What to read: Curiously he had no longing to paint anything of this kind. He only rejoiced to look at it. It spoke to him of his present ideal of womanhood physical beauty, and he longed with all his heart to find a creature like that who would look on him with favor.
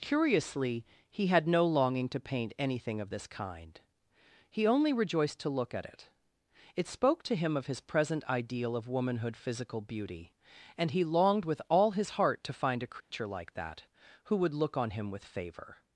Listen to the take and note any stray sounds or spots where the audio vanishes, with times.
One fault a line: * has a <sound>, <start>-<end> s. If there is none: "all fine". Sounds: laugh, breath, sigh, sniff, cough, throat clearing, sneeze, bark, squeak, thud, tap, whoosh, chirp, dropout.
* has a dropout, 13.0-13.1 s